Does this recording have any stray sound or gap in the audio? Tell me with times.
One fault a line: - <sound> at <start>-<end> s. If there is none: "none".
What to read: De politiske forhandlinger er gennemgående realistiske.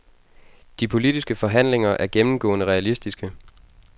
none